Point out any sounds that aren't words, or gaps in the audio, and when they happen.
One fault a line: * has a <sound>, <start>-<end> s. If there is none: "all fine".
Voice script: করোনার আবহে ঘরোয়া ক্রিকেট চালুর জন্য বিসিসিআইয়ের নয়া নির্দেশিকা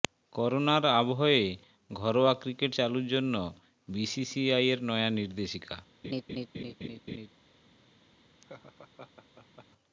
* has a laugh, 6.0-7.3 s
* has a laugh, 8.4-9.7 s